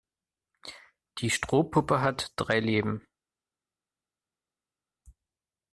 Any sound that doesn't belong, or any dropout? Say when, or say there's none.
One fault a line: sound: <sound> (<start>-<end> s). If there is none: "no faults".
no faults